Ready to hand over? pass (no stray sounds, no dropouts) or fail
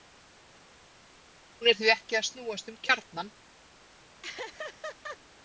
fail